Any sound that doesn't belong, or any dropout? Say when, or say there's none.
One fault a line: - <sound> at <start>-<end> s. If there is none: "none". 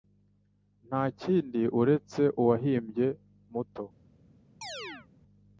- chirp at 4.6-5.1 s